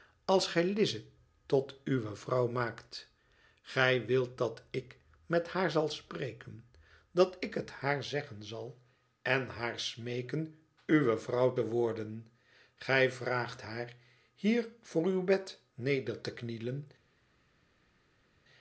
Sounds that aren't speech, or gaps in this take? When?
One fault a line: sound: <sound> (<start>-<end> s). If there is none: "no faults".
no faults